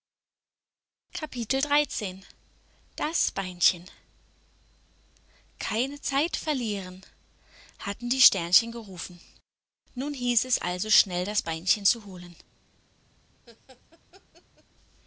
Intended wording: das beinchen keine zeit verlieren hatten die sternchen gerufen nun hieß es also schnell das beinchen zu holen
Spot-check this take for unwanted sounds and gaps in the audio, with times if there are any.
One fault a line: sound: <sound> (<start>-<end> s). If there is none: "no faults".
sound: laugh (13.5-14.6 s)